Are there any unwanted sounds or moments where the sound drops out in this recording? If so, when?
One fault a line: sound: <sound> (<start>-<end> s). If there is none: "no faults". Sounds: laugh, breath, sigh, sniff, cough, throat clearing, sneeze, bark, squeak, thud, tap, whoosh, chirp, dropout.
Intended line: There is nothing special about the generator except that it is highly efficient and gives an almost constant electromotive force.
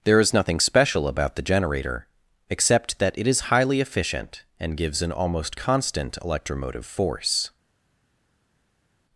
no faults